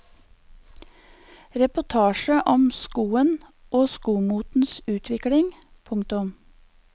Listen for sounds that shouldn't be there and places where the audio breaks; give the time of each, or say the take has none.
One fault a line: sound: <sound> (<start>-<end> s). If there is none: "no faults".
no faults